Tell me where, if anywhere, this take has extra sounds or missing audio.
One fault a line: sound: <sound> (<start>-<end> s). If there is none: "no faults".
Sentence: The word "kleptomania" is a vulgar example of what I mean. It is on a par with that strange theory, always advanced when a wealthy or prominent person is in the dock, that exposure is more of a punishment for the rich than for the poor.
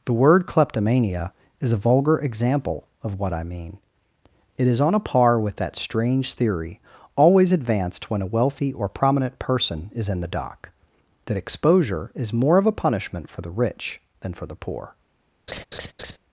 sound: laugh (15.5-16.2 s)